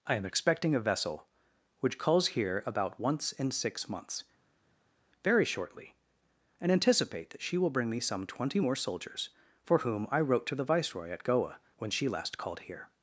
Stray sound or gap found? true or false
false